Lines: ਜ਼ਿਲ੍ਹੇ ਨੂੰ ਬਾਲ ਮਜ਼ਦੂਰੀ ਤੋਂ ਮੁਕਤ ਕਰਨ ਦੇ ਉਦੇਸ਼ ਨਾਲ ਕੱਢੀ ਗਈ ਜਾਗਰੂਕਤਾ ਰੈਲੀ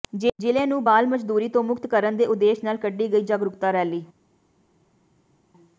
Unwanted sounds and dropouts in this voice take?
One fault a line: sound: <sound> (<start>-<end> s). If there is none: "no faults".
no faults